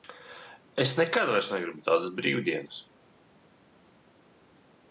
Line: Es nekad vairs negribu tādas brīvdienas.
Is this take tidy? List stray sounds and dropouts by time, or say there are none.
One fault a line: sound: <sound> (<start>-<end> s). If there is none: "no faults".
no faults